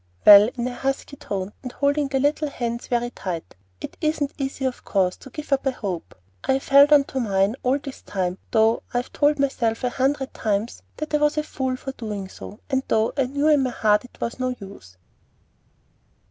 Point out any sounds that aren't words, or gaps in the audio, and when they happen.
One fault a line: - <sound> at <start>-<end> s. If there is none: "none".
none